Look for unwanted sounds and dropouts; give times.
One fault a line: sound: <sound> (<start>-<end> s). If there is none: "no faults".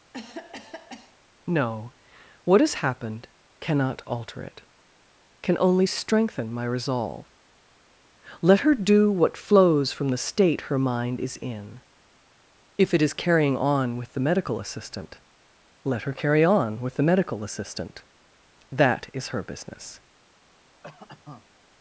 sound: cough (0.1-1.2 s)
sound: cough (20.8-21.6 s)